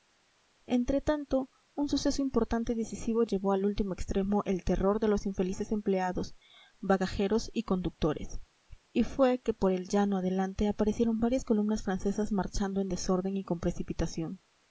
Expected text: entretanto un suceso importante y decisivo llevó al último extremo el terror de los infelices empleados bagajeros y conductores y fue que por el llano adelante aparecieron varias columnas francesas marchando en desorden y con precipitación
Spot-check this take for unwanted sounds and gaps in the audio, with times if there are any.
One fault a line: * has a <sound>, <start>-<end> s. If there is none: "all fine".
all fine